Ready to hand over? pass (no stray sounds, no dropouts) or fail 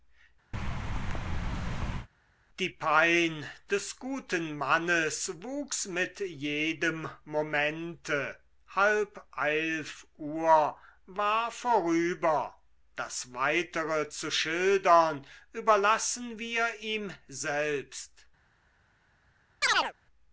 fail